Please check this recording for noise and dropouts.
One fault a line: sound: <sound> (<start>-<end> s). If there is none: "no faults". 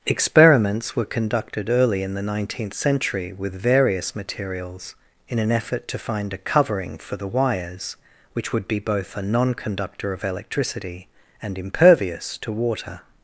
no faults